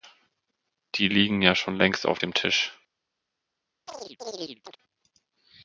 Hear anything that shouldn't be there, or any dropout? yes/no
yes